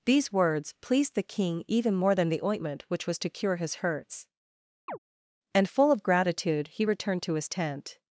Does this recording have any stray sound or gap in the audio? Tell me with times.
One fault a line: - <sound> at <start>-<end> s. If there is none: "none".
- chirp at 4.9-5.0 s